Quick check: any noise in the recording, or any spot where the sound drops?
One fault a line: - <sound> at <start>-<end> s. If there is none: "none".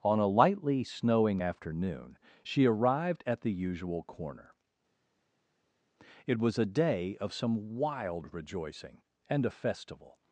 none